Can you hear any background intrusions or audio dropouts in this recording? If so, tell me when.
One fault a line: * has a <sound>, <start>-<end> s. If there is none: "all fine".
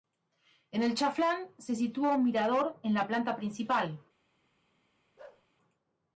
* has a bark, 5.2-5.5 s